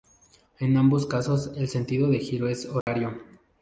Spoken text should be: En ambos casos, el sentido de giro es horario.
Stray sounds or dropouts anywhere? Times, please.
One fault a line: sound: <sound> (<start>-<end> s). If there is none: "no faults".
sound: dropout (2.8-2.9 s)